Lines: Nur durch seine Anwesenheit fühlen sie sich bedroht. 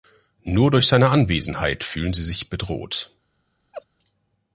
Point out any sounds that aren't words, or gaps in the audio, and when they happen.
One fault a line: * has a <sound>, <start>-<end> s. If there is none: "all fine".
* has a laugh, 3.7-3.9 s